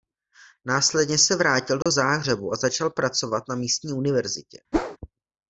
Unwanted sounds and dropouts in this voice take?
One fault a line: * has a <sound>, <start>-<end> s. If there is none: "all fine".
* has a dropout, 1.8-1.9 s
* has a whoosh, 4.7-5.0 s